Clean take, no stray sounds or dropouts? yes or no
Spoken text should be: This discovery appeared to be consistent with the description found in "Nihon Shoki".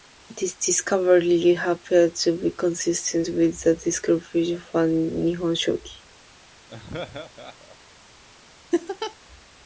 no